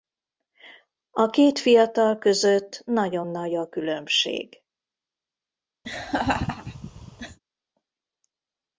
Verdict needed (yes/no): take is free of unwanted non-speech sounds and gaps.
no